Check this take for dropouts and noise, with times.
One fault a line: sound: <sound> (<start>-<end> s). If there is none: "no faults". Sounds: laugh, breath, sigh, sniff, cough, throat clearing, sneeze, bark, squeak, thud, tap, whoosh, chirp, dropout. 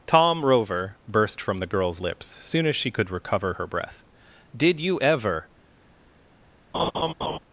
sound: laugh (6.7-7.4 s)